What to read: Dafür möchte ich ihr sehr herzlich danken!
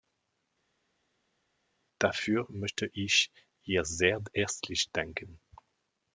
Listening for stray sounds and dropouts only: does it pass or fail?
pass